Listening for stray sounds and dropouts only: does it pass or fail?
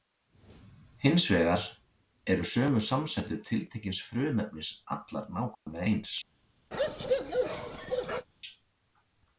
fail